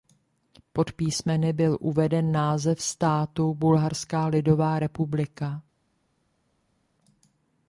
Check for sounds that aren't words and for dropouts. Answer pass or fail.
pass